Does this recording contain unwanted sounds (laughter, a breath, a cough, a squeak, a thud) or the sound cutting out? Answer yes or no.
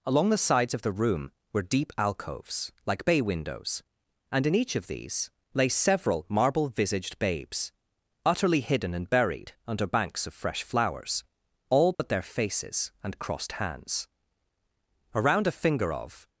yes